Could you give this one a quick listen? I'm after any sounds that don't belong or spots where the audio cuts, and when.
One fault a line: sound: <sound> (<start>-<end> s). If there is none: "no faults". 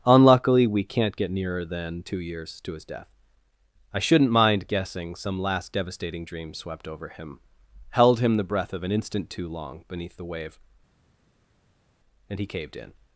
no faults